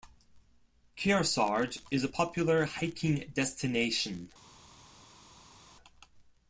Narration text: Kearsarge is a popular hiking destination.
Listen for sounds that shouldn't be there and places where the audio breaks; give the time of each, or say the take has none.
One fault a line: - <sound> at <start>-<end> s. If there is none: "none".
none